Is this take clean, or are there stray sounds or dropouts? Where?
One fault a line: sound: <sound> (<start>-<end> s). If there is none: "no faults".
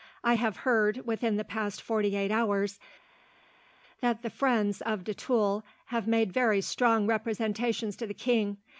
no faults